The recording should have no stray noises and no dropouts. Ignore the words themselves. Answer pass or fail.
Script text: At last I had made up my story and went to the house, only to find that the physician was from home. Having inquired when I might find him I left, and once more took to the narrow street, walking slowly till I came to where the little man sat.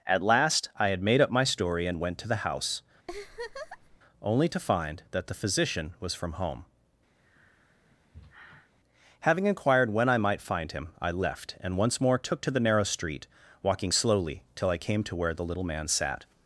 fail